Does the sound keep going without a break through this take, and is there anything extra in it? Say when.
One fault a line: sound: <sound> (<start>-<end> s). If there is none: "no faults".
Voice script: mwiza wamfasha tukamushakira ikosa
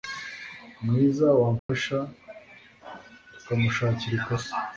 sound: dropout (1.6-1.7 s)